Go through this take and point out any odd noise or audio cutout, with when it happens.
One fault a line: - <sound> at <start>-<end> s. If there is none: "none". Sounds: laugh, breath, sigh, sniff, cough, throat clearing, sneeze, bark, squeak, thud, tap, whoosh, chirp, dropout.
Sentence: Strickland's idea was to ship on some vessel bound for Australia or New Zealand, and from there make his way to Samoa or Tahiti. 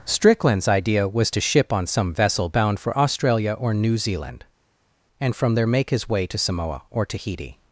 none